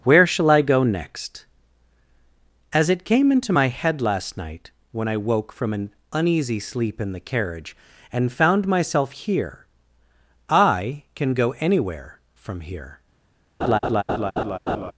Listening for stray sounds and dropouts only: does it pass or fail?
fail